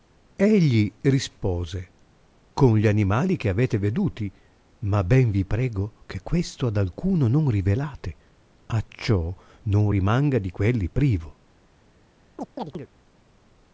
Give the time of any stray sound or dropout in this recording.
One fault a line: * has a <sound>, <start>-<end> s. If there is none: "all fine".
* has a chirp, 12.4-12.9 s